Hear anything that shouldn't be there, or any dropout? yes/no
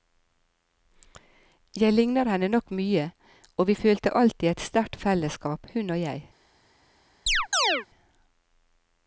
yes